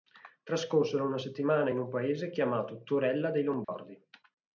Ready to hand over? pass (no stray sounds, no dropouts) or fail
fail